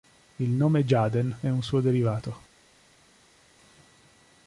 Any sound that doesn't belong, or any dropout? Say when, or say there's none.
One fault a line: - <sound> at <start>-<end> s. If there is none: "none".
none